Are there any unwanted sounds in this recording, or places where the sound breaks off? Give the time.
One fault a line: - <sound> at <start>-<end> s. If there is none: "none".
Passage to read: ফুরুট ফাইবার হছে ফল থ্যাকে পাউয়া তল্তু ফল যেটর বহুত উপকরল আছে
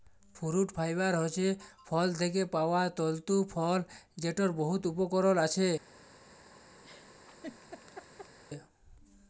- laugh at 6.8-8.4 s